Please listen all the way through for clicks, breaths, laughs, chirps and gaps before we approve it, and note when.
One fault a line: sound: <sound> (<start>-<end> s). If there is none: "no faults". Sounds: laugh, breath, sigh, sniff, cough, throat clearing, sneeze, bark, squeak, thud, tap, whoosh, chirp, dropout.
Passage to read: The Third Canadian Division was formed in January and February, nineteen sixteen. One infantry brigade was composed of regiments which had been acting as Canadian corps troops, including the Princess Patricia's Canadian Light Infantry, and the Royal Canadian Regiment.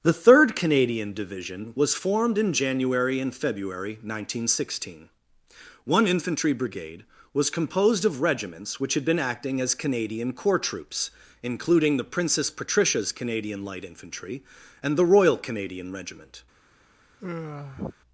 sound: sigh (17.2-18.0 s)